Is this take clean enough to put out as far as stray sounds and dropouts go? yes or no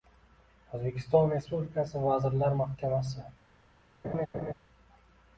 no